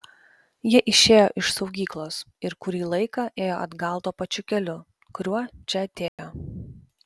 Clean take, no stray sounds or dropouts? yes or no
no